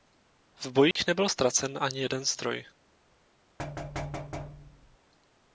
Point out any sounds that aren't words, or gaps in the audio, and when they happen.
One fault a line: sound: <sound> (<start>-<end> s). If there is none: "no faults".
sound: dropout (0.9-1.0 s)
sound: thud (3.6-5.0 s)